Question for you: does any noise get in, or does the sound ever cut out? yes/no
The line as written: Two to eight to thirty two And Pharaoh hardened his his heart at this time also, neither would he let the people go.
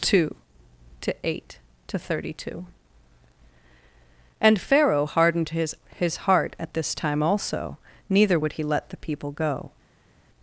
no